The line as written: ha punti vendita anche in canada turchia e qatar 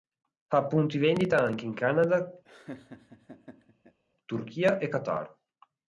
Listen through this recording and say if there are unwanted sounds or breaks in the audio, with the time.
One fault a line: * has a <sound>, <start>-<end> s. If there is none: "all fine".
* has a laugh, 2.4-4.0 s